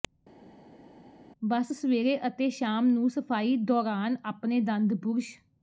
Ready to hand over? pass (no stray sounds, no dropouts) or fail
pass